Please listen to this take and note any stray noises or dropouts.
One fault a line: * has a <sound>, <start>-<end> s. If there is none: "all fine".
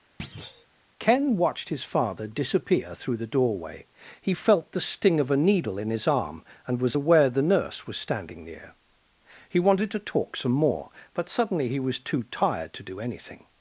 * has a thud, 0.2-0.7 s